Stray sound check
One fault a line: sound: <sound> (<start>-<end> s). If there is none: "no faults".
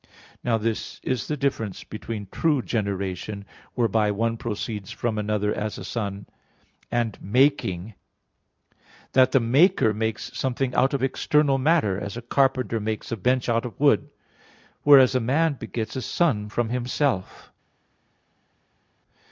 no faults